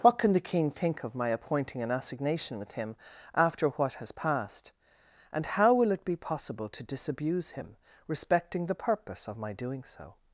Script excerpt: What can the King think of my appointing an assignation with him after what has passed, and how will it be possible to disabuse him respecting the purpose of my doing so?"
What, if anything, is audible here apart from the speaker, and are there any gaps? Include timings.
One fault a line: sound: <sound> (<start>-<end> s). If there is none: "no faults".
no faults